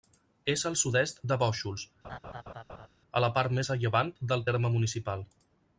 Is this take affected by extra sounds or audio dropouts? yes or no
yes